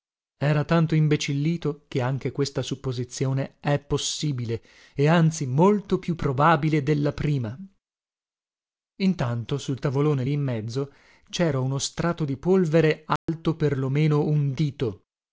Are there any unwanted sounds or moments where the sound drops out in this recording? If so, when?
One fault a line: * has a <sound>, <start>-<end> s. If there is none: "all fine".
* has a dropout, 13.2-13.3 s